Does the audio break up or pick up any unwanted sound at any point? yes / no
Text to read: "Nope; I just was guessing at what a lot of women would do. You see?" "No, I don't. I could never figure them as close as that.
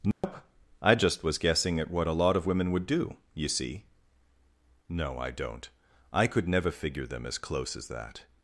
yes